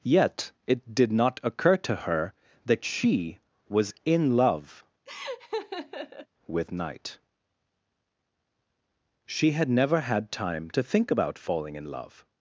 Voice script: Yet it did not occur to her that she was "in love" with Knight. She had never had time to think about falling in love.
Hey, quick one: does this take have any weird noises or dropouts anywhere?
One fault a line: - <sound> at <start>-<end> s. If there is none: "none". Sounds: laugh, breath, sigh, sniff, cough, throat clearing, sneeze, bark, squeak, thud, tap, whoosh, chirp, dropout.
- laugh at 5.1-6.3 s